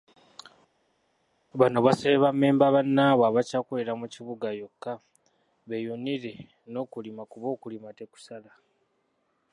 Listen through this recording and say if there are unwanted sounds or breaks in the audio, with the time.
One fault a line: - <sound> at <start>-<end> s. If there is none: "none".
none